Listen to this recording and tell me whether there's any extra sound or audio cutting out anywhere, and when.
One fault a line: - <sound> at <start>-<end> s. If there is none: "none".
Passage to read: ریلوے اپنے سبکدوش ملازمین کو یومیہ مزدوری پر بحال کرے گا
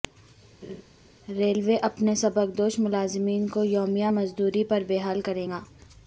- laugh at 0.6-0.8 s